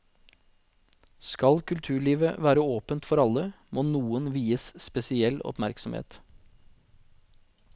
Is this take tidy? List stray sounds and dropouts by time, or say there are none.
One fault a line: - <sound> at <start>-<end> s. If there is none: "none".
none